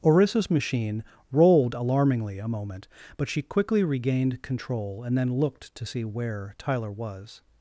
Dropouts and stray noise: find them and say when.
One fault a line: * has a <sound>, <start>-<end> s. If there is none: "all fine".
all fine